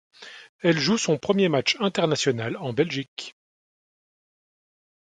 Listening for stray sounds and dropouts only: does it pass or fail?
pass